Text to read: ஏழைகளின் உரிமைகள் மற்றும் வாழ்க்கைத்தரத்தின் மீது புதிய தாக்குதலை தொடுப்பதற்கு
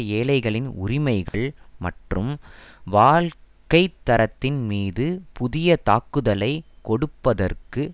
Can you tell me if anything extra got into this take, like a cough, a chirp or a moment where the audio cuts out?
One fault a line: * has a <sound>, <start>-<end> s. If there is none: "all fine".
* has a dropout, 1.3-1.3 s